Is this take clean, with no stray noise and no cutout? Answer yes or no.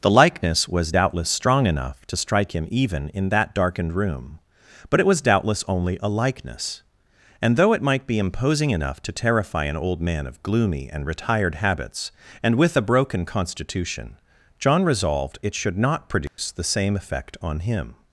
no